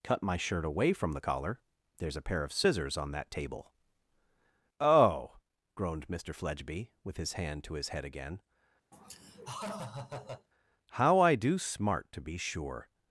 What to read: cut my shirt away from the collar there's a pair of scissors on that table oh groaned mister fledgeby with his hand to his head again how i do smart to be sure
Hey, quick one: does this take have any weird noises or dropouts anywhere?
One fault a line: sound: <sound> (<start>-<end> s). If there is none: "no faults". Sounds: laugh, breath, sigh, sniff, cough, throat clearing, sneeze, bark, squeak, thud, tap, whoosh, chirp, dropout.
sound: laugh (8.9-10.5 s)